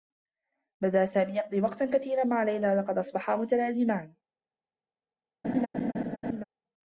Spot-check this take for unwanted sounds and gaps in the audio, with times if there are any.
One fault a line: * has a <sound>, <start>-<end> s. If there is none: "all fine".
* has a laugh, 5.4-6.4 s